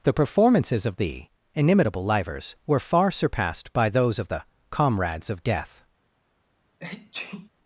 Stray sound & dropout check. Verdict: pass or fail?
fail